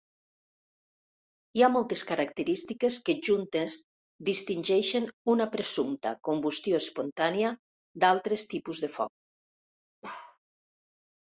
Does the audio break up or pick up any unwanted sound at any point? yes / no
yes